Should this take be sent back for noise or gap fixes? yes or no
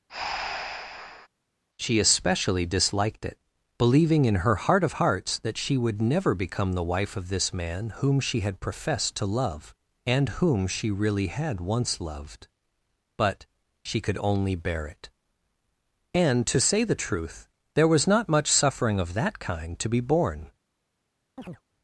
yes